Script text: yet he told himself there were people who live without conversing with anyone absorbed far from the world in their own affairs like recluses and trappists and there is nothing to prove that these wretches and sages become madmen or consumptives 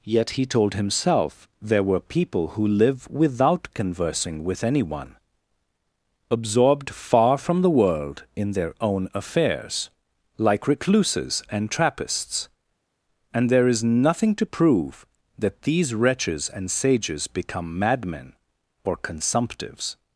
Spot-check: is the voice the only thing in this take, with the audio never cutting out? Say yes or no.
yes